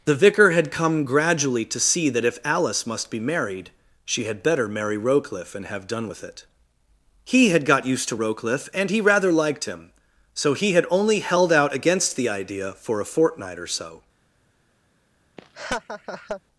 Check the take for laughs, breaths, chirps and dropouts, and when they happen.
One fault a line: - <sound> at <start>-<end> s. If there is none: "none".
- laugh at 15.4-16.4 s